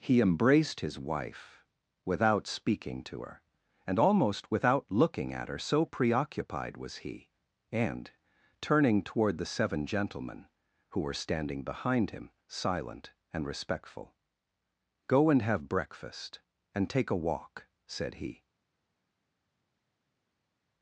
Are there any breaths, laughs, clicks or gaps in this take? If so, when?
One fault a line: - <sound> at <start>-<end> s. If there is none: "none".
none